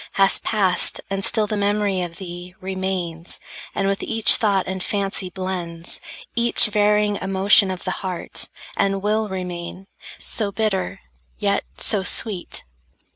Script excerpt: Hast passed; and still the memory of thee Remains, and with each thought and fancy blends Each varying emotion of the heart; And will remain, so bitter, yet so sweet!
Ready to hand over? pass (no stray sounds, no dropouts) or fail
pass